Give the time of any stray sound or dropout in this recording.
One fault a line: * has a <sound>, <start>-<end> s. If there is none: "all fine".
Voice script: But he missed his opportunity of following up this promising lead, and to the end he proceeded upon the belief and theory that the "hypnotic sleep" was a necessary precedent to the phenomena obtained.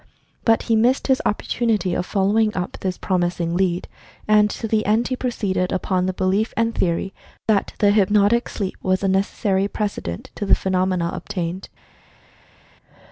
all fine